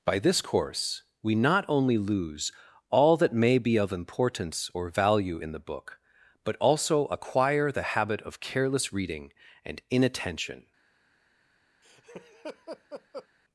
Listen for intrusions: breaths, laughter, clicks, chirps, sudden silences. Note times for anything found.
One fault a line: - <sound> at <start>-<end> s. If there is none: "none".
- laugh at 11.8-13.3 s